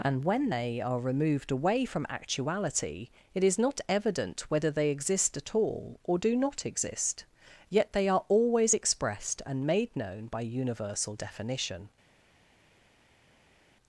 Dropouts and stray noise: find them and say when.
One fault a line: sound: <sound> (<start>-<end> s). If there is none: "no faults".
no faults